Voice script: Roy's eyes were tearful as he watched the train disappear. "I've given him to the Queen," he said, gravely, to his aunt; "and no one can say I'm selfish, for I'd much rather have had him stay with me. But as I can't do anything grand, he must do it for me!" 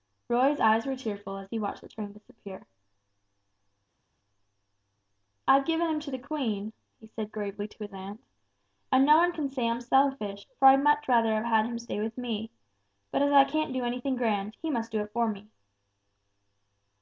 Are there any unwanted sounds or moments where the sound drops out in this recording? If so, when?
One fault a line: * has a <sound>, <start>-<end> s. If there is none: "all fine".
all fine